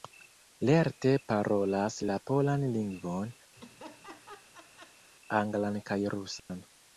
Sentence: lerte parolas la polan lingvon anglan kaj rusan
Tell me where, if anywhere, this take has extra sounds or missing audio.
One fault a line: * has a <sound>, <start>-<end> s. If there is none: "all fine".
* has a laugh, 3.6-5.1 s
* has a dropout, 6.4-6.5 s